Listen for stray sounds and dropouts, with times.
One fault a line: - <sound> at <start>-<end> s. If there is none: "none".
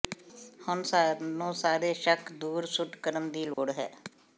- dropout at 3.5-3.6 s